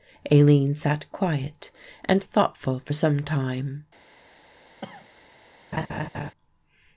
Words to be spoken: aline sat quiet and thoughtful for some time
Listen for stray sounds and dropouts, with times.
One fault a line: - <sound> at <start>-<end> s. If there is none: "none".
- cough at 4.8-5.1 s
- laugh at 5.7-6.3 s